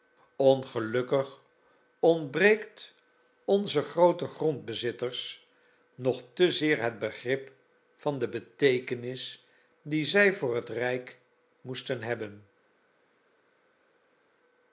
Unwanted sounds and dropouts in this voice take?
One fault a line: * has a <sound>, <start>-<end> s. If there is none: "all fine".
all fine